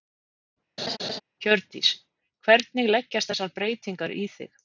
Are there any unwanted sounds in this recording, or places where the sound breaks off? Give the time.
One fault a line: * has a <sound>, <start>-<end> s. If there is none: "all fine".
* has a laugh, 0.8-1.2 s